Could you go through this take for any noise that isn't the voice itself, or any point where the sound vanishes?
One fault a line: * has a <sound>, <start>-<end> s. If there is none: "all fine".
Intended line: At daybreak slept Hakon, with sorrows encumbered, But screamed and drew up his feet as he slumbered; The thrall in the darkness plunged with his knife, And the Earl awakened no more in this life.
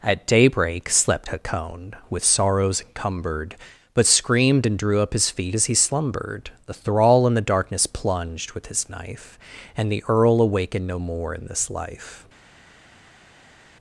all fine